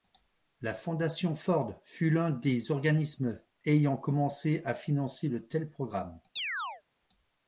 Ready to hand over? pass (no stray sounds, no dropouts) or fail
fail